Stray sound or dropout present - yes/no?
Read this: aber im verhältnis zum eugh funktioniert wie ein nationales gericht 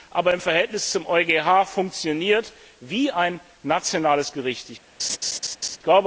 yes